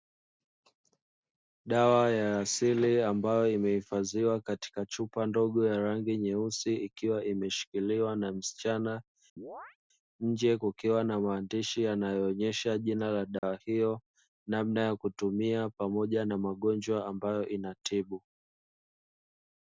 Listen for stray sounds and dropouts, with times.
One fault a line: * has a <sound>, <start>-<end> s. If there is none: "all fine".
* has a chirp, 9.4-9.8 s
* has a dropout, 13.4-13.4 s